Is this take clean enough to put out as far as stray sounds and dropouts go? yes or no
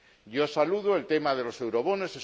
yes